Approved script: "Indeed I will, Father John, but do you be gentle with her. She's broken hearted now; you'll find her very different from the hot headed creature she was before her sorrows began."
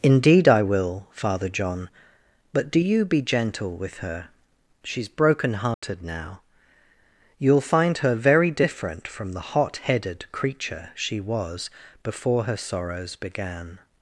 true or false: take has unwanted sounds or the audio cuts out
true